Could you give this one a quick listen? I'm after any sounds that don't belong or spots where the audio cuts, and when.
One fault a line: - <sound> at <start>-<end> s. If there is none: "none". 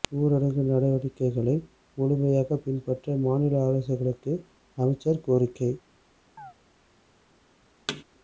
- chirp at 6.4-6.5 s
- thud at 7.9-8.0 s